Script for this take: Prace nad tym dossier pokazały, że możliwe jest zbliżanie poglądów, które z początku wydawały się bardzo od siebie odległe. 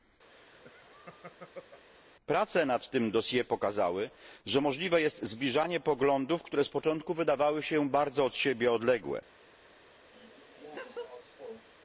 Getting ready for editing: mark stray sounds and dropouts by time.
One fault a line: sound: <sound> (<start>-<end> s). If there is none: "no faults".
sound: laugh (0.3-1.8 s)
sound: laugh (10.1-11.6 s)